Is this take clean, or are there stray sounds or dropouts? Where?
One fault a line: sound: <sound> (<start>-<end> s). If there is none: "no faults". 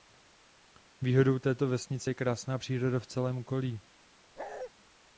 sound: bark (4.4-4.7 s)